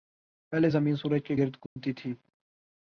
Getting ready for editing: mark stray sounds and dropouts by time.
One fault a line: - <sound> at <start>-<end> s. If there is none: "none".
- dropout at 1.7-1.8 s